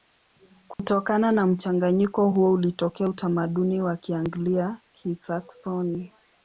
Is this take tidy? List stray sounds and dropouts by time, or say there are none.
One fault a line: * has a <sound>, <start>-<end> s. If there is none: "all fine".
* has a dropout, 0.7-0.8 s